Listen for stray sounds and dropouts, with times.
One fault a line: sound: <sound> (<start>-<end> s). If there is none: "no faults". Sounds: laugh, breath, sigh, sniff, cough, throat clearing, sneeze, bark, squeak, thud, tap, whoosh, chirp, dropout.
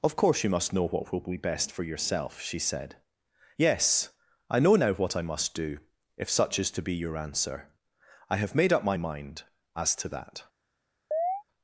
sound: chirp (11.1-11.4 s)